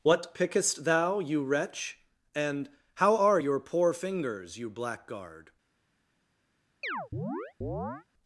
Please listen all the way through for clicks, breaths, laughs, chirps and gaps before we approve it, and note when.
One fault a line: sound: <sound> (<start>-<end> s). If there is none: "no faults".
sound: chirp (6.8-8.1 s)